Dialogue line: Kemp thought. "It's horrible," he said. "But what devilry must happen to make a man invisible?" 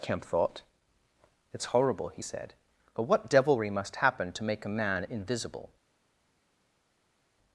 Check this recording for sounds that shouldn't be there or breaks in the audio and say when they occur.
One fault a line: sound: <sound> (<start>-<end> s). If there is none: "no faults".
no faults